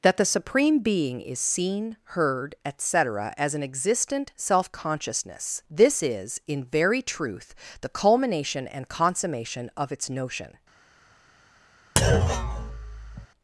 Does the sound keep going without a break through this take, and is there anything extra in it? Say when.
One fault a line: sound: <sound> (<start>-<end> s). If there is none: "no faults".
sound: thud (12.0-13.3 s)